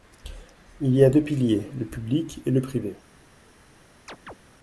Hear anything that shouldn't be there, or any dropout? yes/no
yes